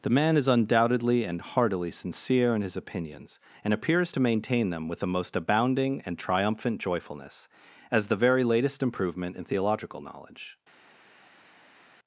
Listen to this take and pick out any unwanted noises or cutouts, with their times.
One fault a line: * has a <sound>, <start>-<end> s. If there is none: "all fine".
all fine